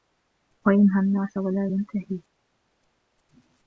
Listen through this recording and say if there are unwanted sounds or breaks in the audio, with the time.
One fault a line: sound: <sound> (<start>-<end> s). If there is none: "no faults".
no faults